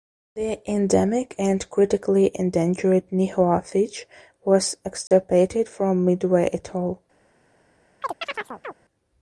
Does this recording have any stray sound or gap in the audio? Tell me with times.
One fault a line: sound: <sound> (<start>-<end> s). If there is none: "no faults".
sound: dropout (5.1-5.1 s)
sound: chirp (8.0-8.7 s)